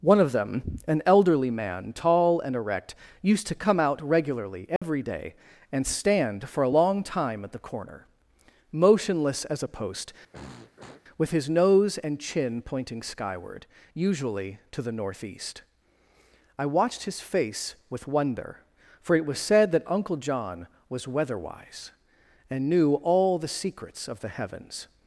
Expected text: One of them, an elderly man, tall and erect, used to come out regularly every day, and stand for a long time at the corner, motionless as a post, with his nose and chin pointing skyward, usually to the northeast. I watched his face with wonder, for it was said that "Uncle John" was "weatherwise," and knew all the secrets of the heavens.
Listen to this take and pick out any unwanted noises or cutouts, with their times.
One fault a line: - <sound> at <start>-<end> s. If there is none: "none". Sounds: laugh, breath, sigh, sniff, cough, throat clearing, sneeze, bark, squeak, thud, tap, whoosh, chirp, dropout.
- dropout at 4.8-4.8 s
- throat clearing at 10.3-11.0 s